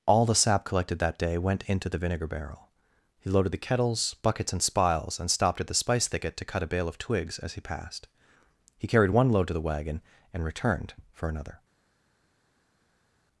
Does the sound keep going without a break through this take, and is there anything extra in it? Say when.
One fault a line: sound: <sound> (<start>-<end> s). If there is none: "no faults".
no faults